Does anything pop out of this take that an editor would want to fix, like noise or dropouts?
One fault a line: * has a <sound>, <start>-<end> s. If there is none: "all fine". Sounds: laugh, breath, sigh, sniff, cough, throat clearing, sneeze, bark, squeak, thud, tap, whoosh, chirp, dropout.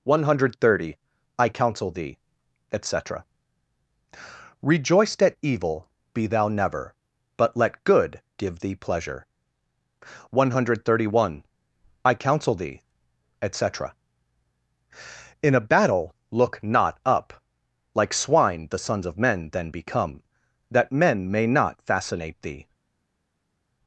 all fine